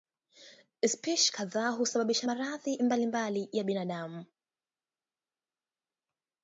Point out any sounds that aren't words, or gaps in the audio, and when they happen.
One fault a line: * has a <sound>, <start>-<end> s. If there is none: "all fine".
all fine